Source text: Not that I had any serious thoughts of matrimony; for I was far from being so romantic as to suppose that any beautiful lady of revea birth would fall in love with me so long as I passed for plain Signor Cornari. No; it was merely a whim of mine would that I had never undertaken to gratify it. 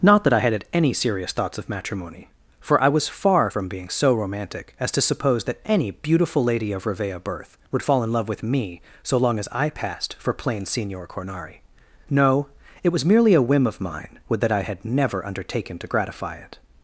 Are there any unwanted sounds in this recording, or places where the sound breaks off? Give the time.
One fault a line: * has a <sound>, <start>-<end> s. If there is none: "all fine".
all fine